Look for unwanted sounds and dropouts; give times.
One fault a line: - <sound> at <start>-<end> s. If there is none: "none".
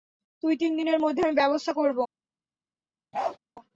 - bark at 3.1-3.4 s